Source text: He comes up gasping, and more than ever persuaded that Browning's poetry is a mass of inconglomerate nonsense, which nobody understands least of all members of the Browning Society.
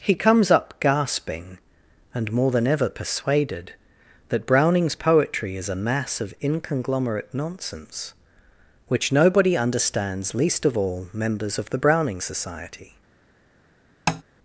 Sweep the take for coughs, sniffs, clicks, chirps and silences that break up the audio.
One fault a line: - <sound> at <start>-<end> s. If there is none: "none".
- tap at 14.1-14.2 s